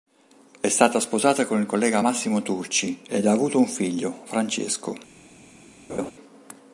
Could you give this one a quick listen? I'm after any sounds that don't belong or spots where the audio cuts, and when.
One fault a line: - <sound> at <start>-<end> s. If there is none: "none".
- laugh at 5.9-6.1 s